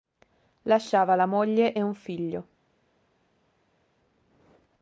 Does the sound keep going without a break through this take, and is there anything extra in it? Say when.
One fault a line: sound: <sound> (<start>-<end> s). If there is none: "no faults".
no faults